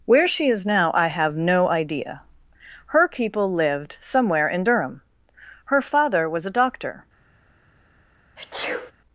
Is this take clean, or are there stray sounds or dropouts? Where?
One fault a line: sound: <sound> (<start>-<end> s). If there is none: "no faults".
sound: sneeze (8.4-8.9 s)